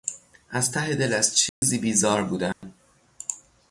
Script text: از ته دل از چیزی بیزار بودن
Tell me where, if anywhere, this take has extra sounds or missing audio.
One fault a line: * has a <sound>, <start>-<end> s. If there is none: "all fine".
* has a dropout, 1.5-1.6 s
* has a dropout, 2.5-2.6 s